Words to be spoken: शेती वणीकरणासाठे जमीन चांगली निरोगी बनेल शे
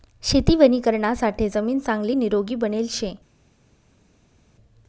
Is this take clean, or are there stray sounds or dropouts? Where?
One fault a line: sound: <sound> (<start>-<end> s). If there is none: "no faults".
no faults